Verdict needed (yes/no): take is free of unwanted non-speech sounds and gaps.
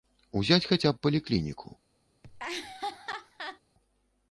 no